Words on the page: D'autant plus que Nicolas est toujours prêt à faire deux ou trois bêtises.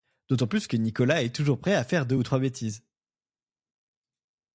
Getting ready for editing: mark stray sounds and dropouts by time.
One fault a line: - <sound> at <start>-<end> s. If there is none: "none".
none